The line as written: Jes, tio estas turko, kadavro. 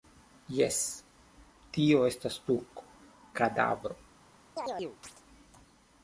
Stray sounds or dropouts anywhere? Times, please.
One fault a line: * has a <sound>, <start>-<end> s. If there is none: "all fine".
* has a chirp, 4.6-5.2 s